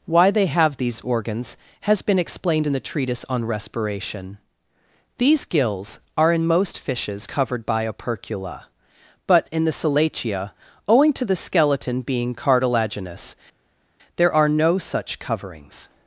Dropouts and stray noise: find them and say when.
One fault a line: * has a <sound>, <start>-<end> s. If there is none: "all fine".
all fine